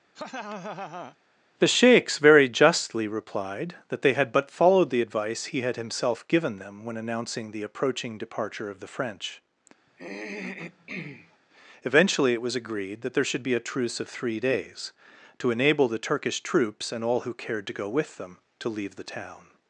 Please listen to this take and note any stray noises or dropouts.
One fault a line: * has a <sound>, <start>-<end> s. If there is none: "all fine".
* has a laugh, 0.1-1.2 s
* has a throat clearing, 9.9-11.4 s